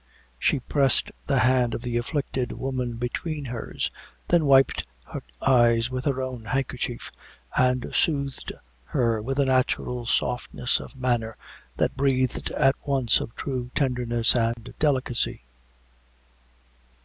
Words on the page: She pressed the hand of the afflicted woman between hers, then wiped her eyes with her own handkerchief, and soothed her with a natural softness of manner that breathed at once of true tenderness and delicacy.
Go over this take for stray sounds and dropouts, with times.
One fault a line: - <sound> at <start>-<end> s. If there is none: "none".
- dropout at 14.5-14.6 s